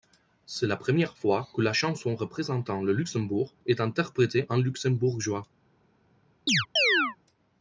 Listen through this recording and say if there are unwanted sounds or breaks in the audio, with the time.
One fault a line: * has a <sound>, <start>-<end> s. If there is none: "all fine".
* has a chirp, 6.5-7.2 s